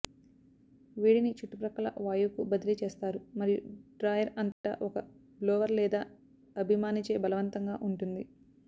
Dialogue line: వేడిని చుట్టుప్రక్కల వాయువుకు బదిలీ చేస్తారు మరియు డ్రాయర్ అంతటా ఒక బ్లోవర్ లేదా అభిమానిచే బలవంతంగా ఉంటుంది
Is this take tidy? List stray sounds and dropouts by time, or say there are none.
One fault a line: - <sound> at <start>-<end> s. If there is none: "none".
- dropout at 4.5-4.6 s